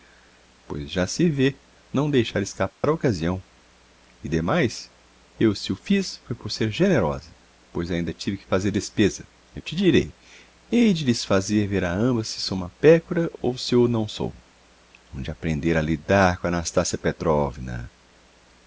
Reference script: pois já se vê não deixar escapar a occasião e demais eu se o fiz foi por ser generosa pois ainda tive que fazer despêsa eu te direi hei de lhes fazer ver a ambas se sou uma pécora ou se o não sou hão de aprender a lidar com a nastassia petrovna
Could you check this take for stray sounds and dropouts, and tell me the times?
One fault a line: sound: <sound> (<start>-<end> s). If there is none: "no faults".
sound: dropout (2.7-2.8 s)